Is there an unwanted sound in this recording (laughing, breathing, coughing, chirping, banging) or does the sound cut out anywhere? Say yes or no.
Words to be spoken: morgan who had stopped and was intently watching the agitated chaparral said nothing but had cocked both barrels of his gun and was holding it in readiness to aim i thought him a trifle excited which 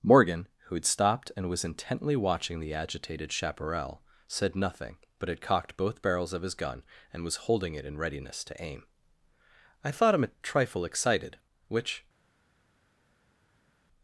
no